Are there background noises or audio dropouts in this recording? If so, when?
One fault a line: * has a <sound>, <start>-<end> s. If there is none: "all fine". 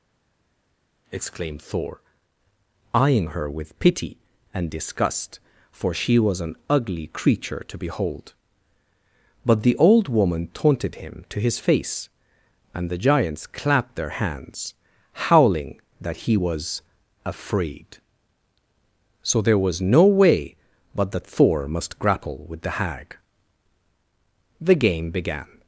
all fine